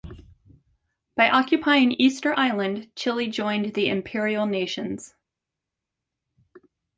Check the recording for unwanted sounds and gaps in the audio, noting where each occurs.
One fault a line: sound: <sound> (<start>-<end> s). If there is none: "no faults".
no faults